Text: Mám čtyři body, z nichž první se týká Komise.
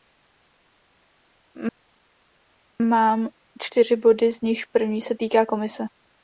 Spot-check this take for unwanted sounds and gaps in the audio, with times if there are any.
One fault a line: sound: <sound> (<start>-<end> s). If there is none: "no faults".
no faults